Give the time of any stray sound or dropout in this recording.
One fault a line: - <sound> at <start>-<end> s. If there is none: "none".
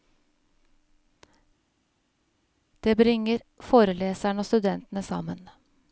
none